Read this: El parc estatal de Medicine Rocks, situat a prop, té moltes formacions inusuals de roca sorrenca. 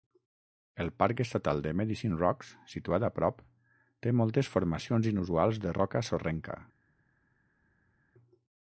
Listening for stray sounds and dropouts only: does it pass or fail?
pass